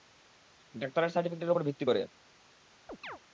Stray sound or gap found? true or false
true